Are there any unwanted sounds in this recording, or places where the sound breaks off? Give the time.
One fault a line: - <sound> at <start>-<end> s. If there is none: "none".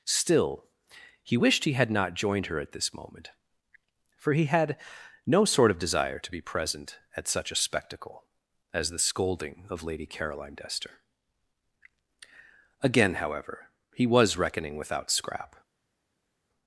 none